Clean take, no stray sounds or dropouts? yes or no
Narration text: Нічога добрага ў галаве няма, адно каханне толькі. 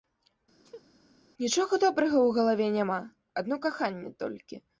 no